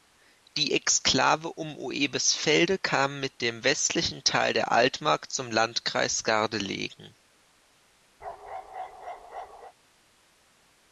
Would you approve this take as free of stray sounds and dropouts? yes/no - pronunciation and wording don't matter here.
no